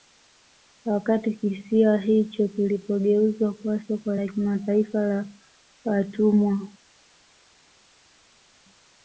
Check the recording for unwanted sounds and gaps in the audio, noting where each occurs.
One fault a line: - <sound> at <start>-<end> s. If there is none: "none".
none